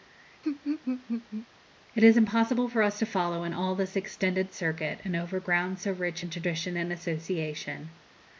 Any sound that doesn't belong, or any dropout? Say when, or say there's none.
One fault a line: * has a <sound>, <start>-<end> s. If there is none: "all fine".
* has a laugh, 0.4-1.5 s